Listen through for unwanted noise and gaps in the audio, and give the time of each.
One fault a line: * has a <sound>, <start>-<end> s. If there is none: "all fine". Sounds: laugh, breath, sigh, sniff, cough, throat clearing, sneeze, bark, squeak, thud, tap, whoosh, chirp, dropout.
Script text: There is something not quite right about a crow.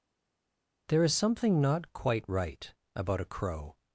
all fine